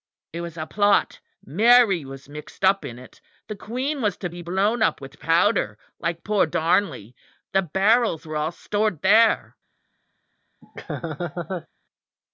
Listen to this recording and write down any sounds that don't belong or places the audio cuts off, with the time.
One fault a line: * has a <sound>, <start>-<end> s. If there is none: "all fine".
* has a laugh, 10.6-11.7 s